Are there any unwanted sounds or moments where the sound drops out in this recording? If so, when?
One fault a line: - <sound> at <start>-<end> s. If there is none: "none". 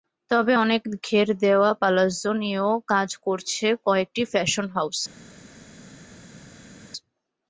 none